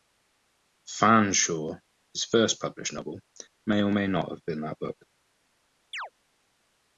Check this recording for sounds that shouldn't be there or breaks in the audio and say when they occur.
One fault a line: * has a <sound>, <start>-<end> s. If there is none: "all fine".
* has a chirp, 5.9-6.1 s